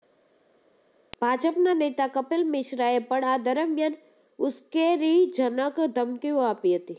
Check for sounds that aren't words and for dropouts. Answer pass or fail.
pass